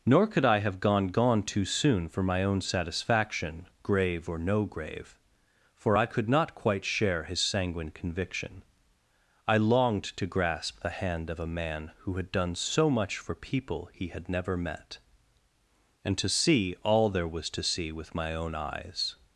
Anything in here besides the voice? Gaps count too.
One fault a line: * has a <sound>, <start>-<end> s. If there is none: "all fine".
all fine